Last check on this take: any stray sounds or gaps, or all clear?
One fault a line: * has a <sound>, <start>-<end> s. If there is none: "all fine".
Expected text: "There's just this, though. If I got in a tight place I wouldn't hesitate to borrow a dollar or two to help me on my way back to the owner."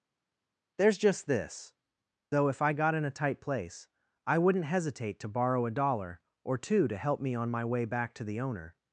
all fine